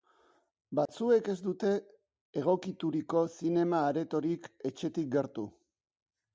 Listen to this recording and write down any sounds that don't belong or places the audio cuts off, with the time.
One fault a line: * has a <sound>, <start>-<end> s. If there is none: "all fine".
* has a dropout, 0.9-0.9 s